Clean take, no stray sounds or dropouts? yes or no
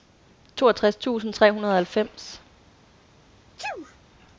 no